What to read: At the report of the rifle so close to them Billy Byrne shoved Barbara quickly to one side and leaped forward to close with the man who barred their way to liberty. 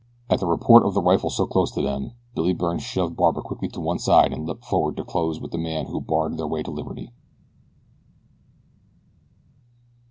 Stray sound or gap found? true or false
false